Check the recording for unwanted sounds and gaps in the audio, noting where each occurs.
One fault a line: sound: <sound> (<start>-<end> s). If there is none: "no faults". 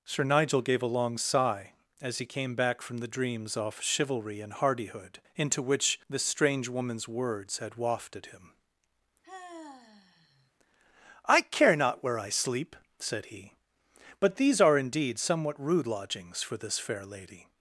sound: sigh (9.2-10.5 s)